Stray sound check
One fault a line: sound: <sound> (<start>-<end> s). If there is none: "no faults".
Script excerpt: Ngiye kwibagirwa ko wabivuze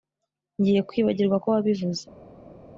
no faults